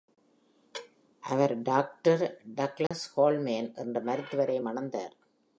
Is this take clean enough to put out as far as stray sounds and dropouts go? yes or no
no